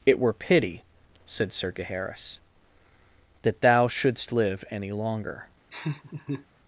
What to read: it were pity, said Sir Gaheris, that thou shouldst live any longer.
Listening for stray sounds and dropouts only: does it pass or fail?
fail